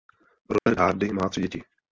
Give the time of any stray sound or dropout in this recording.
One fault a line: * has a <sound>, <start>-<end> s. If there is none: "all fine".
* has a dropout, 0.6-0.7 s